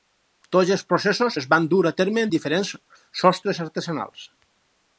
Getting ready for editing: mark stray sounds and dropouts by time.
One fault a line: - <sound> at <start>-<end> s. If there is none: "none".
none